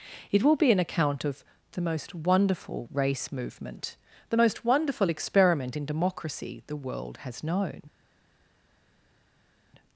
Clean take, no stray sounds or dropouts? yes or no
yes